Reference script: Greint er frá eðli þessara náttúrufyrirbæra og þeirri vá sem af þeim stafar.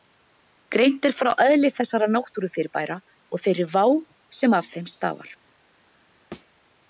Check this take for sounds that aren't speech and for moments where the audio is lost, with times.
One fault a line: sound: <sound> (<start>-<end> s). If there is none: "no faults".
sound: thud (6.3-6.5 s)